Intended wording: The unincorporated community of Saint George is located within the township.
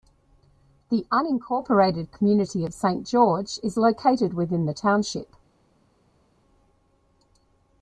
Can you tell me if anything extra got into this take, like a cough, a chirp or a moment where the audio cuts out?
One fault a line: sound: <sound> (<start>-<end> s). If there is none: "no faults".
no faults